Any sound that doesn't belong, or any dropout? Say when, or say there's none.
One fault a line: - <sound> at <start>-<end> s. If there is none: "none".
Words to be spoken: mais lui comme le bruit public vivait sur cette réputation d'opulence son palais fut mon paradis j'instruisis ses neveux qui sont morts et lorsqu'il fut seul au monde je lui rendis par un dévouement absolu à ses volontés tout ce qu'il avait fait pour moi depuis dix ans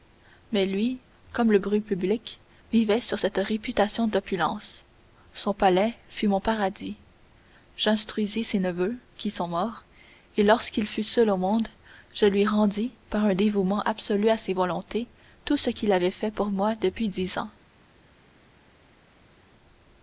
none